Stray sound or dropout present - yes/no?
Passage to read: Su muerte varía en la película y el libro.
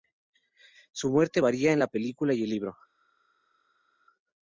no